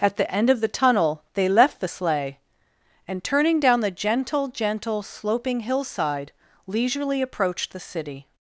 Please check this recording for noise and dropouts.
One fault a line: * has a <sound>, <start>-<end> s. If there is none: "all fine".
all fine